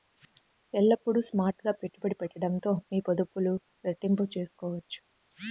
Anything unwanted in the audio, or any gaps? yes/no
no